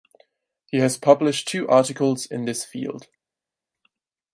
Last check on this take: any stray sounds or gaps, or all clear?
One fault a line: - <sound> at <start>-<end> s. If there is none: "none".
none